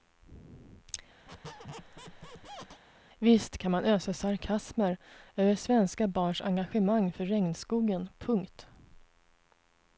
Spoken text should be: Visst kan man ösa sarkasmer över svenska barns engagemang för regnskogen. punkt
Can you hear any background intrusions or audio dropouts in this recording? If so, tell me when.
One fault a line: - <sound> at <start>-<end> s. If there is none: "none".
- squeak at 1.3-2.8 s